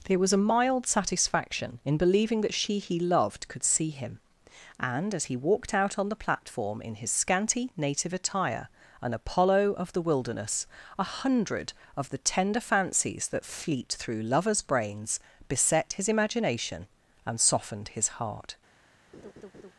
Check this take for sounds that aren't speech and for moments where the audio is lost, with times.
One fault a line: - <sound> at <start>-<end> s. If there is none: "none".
- laugh at 19.1-19.7 s